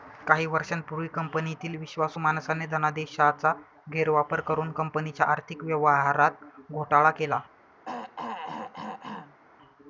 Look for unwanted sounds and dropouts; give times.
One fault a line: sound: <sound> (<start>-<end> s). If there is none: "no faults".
sound: throat clearing (7.8-9.4 s)